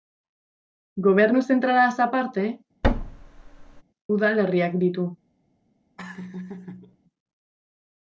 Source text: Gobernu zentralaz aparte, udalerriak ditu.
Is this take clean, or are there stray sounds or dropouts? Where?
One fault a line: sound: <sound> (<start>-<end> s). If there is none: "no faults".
sound: thud (2.8-3.8 s)
sound: laugh (6.0-7.0 s)